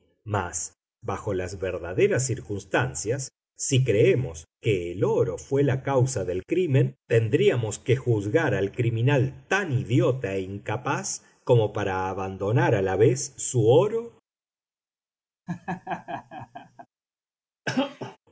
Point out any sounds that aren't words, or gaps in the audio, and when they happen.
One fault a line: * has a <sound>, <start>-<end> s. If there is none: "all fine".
* has a laugh, 15.5-16.9 s
* has a cough, 17.7-18.2 s